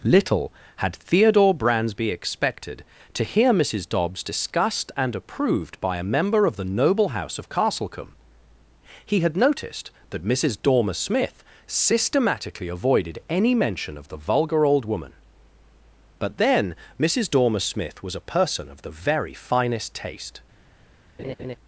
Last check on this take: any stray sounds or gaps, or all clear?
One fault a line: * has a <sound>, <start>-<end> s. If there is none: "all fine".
* has a laugh, 21.2-21.6 s